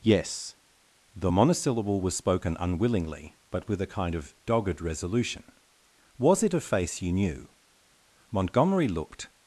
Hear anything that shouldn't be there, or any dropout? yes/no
no